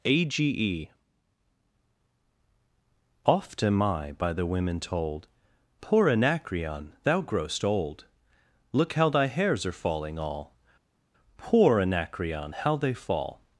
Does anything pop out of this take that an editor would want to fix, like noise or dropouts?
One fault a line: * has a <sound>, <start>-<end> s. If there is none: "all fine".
all fine